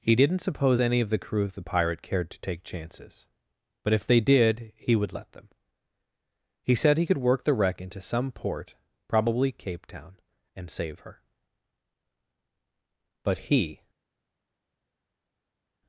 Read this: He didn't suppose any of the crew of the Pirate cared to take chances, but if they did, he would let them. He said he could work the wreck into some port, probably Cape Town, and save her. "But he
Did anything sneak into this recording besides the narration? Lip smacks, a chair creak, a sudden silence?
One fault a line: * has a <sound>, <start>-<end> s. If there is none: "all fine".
all fine